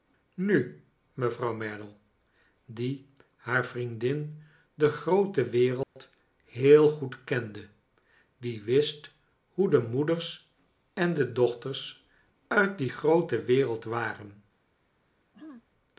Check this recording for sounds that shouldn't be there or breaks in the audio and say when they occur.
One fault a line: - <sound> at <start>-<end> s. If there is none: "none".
- dropout at 5.8-6.0 s
- throat clearing at 15.3-15.6 s